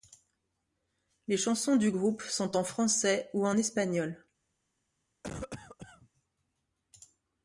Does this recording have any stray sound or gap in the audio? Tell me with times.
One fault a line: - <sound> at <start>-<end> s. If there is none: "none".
- cough at 5.2-6.1 s